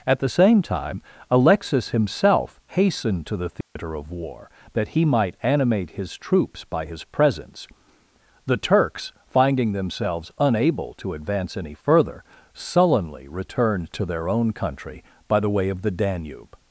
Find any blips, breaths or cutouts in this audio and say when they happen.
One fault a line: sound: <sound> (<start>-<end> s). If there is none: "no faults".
sound: dropout (3.6-3.8 s)